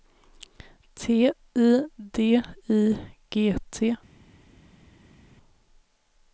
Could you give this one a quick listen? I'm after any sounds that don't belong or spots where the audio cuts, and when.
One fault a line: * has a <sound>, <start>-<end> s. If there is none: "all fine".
all fine